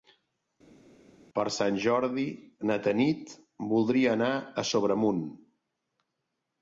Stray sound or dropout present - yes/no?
no